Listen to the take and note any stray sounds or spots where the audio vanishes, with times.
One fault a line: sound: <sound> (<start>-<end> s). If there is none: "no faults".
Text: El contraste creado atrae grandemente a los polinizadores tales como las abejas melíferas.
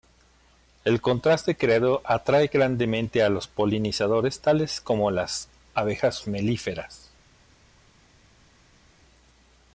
no faults